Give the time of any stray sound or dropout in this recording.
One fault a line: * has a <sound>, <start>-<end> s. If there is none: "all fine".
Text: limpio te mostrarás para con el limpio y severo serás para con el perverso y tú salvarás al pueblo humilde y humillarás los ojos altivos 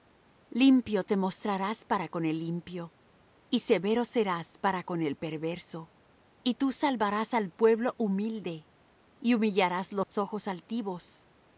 * has a dropout, 10.0-10.1 s